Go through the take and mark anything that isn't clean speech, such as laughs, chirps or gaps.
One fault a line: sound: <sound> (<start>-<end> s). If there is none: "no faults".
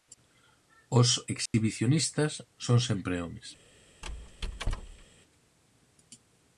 sound: dropout (1.5-1.5 s)
sound: squeak (4.0-5.1 s)